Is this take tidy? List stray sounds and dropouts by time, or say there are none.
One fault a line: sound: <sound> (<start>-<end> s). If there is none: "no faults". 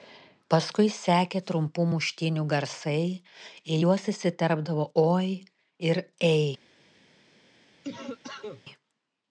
sound: cough (7.8-8.6 s)